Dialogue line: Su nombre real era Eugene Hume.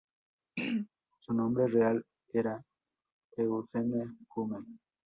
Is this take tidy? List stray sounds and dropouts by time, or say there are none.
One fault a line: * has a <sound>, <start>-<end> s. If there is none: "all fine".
* has a throat clearing, 0.6-0.9 s